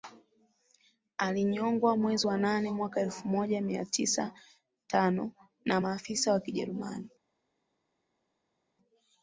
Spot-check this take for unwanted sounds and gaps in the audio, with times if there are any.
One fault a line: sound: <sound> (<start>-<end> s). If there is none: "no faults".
no faults